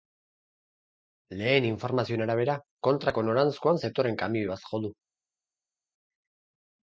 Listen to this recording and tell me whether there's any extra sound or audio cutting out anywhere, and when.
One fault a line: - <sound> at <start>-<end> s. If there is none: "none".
none